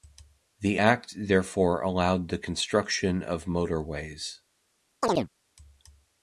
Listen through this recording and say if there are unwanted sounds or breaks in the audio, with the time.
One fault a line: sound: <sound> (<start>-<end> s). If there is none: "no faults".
sound: chirp (5.0-5.3 s)